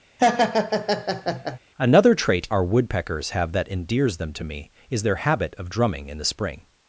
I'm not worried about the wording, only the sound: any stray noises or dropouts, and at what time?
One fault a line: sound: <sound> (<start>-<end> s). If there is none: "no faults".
sound: laugh (0.2-1.6 s)